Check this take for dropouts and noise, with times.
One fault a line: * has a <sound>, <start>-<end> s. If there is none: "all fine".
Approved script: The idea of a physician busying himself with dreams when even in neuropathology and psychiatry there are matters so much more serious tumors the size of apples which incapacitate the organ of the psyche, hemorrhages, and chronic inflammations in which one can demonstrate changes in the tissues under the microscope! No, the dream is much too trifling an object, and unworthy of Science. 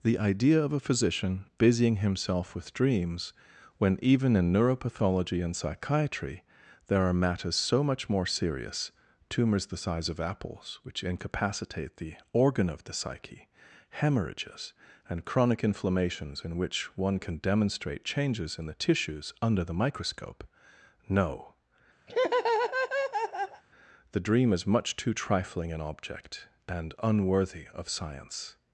* has a laugh, 22.1-23.6 s